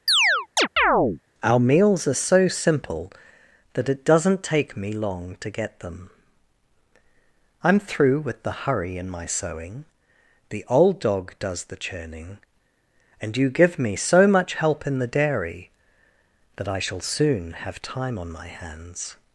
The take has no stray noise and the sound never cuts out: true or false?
false